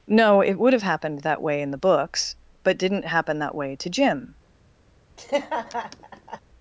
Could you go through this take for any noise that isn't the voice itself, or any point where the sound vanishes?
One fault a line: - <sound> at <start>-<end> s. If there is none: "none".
- laugh at 5.2-6.4 s